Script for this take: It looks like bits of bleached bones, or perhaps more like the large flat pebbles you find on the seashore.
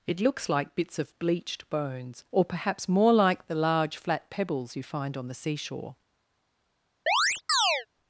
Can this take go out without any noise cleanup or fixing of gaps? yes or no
no